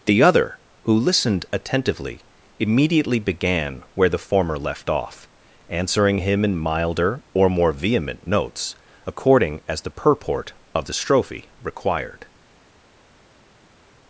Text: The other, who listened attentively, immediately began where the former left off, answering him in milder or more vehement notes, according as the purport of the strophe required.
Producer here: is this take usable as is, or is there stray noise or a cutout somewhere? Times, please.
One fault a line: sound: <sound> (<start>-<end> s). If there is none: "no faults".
no faults